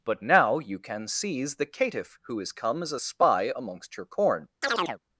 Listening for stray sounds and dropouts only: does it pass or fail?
fail